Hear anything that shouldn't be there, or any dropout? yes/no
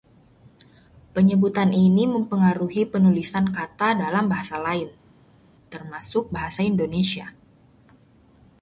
no